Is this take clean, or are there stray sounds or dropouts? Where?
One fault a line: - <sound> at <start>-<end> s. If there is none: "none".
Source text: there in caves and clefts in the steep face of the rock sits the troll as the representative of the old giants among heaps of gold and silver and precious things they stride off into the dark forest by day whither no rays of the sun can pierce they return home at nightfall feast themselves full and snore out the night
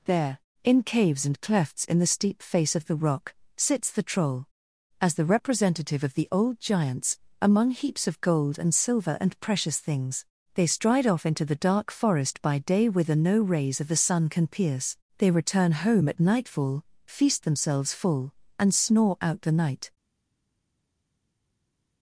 none